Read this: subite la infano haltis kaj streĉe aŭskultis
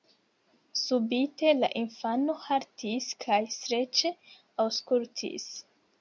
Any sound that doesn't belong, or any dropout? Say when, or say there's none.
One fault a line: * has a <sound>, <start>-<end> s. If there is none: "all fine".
all fine